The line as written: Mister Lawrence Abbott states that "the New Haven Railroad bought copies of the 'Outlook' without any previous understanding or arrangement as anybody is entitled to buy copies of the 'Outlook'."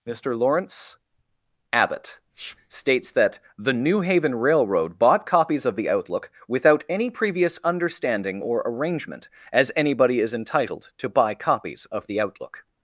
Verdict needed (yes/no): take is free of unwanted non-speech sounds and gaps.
yes